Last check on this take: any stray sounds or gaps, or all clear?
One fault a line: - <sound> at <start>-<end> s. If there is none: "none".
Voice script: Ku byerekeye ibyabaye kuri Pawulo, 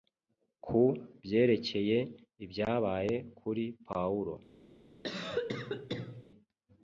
- cough at 5.0-6.2 s